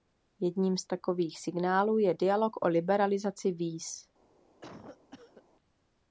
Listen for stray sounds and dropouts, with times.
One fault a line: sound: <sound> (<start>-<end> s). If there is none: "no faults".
sound: cough (4.6-5.4 s)